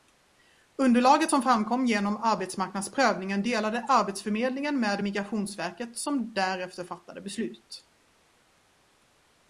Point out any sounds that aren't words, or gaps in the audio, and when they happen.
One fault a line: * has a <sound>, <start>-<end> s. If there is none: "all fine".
all fine